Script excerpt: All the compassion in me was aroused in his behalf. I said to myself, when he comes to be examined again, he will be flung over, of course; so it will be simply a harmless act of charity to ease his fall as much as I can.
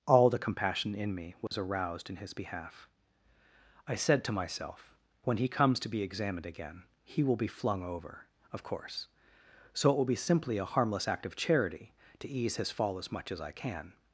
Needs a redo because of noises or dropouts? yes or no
yes